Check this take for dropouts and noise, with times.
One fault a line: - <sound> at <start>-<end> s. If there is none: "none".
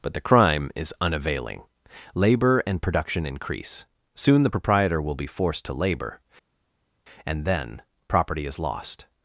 none